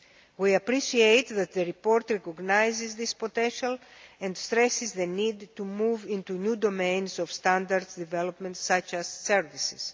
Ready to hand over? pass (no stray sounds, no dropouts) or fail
pass